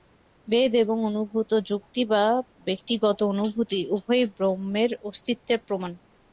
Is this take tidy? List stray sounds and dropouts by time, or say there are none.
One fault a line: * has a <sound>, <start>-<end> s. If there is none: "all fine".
all fine